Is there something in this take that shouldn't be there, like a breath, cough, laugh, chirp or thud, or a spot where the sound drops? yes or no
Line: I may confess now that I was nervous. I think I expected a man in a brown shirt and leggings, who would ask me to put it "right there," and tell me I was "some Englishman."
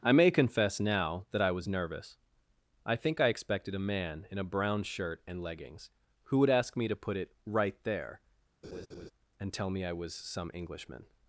yes